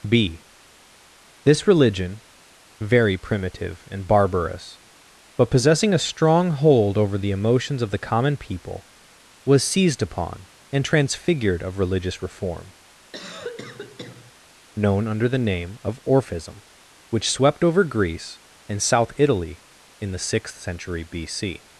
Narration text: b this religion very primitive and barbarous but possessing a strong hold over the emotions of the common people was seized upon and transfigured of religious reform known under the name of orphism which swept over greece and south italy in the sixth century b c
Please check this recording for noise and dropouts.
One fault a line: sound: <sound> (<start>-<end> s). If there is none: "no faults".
sound: cough (13.1-14.3 s)